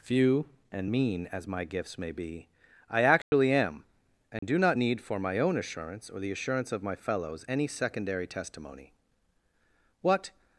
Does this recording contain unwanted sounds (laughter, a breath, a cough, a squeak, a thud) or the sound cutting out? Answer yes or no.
yes